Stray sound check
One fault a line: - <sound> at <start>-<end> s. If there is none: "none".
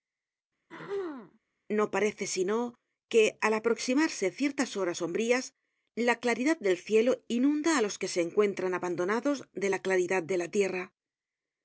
- throat clearing at 0.7-1.4 s